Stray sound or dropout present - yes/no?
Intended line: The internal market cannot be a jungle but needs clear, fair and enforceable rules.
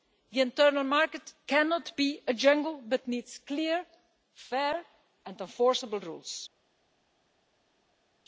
no